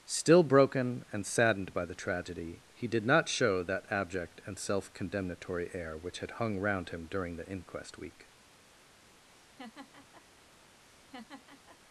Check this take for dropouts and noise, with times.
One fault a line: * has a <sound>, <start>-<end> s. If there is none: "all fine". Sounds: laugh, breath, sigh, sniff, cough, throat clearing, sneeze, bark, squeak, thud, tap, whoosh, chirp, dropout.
* has a laugh, 9.3-10.2 s
* has a laugh, 10.8-11.8 s